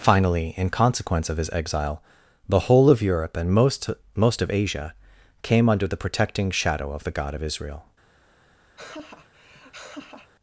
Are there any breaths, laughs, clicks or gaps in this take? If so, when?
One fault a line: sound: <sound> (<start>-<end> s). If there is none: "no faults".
sound: laugh (8.8-10.3 s)